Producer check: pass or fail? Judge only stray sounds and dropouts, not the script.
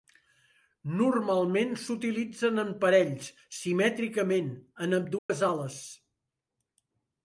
fail